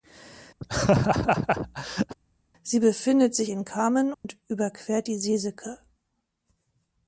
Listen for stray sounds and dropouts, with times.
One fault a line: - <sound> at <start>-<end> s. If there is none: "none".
- laugh at 0.6-2.1 s
- dropout at 4.1-4.2 s